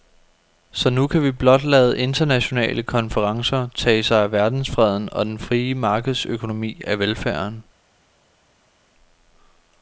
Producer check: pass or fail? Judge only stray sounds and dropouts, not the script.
pass